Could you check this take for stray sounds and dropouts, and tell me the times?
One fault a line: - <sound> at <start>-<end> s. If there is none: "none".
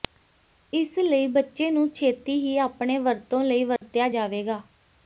- dropout at 3.8-3.8 s